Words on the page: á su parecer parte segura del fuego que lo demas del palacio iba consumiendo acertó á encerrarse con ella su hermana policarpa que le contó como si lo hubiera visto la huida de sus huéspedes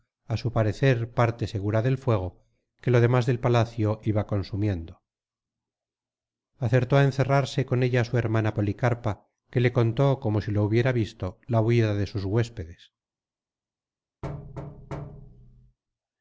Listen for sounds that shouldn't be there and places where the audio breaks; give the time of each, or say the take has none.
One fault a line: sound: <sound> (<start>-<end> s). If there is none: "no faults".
sound: thud (14.2-15.8 s)